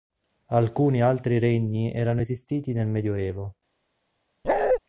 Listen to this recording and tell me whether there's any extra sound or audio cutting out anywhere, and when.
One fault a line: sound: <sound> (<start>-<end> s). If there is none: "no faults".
sound: bark (4.4-4.8 s)